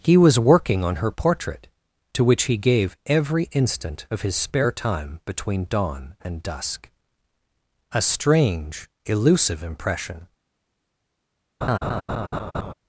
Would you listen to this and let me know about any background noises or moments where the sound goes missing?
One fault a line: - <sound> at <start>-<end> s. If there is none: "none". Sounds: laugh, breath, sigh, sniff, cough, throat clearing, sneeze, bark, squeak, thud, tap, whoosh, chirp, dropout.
- laugh at 11.6-12.7 s